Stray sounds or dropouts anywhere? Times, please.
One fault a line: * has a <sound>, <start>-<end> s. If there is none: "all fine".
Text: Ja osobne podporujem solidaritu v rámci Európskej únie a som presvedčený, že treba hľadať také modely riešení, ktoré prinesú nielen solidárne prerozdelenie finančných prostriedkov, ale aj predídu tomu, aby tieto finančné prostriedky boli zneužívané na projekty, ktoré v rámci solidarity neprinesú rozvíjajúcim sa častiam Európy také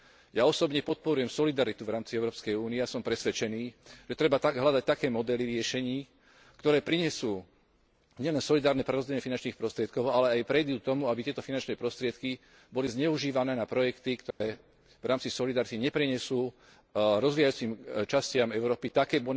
* has a dropout, 14.3-14.4 s